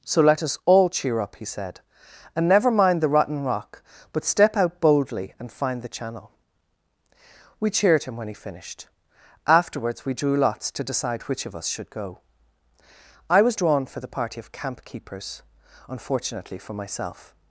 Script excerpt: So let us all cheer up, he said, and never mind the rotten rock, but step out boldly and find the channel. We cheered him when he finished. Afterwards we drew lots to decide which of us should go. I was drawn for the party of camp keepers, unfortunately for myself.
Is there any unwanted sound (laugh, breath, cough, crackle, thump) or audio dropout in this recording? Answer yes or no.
no